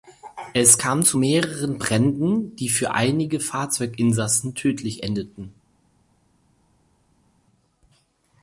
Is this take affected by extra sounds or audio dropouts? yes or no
no